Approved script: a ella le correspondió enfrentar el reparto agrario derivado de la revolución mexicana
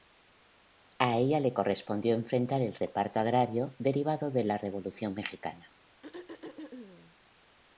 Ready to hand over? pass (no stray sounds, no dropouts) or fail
fail